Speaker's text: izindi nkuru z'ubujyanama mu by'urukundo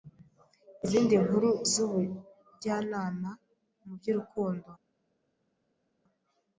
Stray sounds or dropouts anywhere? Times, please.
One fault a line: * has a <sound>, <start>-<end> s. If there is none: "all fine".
all fine